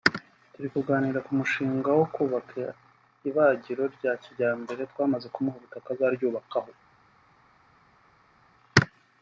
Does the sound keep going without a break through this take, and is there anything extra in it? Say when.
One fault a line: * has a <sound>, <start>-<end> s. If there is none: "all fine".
all fine